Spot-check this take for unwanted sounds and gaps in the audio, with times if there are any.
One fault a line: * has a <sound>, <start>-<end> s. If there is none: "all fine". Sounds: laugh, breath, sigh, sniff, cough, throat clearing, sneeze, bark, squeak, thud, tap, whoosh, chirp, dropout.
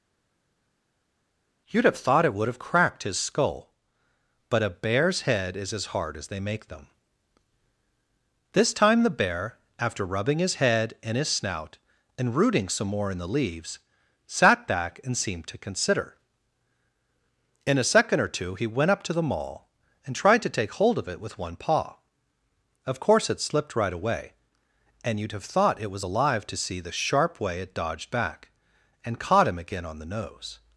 all fine